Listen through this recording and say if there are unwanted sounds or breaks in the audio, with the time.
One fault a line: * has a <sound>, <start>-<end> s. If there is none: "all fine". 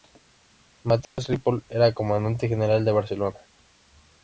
* has a dropout, 1.0-1.2 s